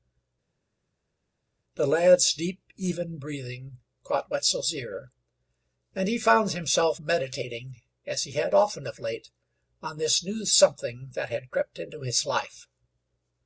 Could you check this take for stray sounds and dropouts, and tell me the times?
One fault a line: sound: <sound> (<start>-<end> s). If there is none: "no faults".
no faults